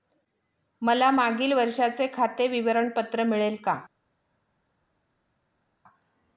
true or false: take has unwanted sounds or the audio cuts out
false